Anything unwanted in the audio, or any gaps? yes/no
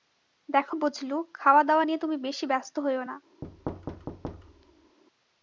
yes